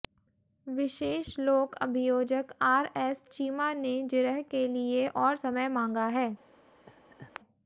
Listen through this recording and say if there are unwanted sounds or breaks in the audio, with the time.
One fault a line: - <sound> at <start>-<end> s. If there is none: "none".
- laugh at 6.9-7.4 s